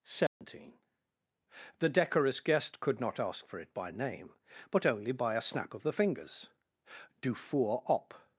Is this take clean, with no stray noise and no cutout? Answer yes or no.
no